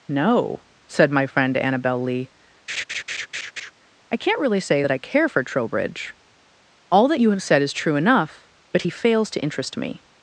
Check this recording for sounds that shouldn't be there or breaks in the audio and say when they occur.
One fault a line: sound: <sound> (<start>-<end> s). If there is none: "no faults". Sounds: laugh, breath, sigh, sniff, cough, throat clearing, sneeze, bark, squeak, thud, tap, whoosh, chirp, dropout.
sound: laugh (2.7-3.7 s)